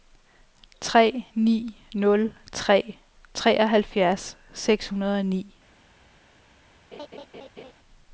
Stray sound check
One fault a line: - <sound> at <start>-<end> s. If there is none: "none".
- laugh at 6.9-7.7 s